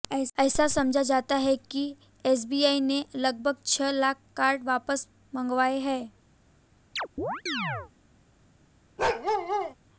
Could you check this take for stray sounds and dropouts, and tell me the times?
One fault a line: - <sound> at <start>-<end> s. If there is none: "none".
- chirp at 7.0-7.9 s
- bark at 9.0-9.7 s